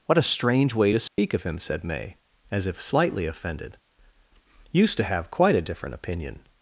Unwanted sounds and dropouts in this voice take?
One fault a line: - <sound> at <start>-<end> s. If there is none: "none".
- dropout at 1.1-1.2 s